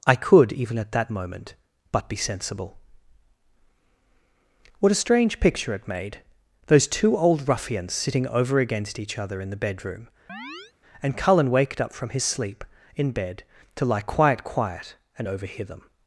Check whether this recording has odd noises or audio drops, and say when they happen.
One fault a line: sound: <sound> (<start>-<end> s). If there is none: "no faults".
sound: chirp (10.3-10.7 s)